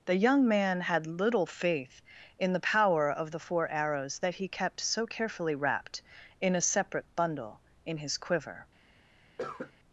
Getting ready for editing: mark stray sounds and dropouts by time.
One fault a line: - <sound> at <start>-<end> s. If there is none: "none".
- cough at 9.4-9.7 s